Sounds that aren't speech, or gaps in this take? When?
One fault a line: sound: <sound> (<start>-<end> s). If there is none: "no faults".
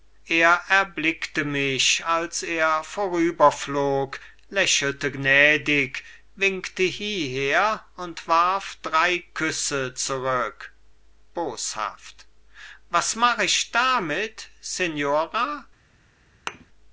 sound: thud (16.5-16.7 s)